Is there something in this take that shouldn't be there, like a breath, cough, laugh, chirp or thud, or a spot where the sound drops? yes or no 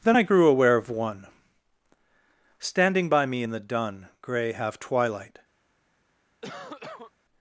yes